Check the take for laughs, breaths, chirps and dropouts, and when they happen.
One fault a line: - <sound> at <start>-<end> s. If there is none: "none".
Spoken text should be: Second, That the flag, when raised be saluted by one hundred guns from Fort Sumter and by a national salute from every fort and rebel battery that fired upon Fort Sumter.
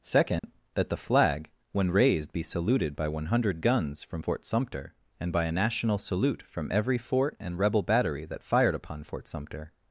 - dropout at 0.4-0.4 s